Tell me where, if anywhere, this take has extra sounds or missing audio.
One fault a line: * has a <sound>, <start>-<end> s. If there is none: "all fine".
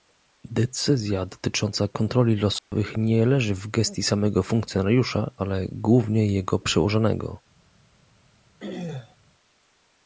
* has a dropout, 2.6-2.7 s
* has a throat clearing, 8.6-9.2 s